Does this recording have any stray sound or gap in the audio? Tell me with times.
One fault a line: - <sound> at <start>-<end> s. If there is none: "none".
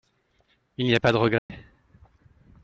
- dropout at 1.4-1.5 s